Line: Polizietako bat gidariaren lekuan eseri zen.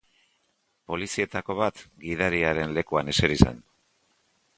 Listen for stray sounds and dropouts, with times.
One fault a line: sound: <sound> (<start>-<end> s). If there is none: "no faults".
no faults